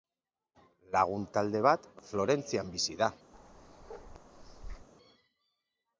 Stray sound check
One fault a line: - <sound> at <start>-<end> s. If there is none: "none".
- bark at 3.3-4.9 s